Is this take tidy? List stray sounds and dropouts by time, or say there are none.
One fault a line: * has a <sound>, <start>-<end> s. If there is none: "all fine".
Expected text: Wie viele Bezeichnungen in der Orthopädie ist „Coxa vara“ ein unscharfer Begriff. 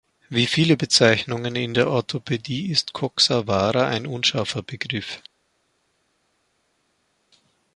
all fine